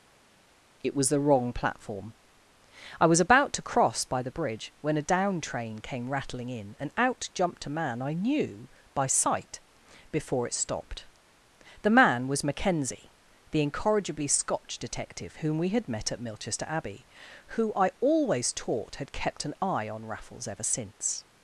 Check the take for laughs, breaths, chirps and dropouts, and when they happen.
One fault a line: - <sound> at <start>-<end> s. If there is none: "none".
none